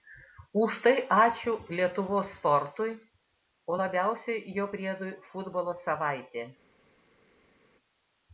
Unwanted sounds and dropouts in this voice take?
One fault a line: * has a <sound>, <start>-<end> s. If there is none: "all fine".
all fine